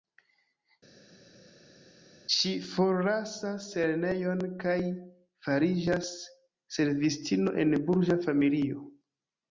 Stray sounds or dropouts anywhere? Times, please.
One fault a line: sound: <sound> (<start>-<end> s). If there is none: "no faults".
no faults